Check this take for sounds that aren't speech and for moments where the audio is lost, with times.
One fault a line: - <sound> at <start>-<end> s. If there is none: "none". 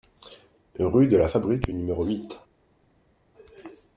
none